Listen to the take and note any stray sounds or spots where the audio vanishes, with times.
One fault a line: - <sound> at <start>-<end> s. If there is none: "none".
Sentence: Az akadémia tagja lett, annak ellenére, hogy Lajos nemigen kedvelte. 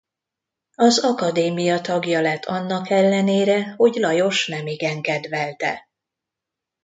none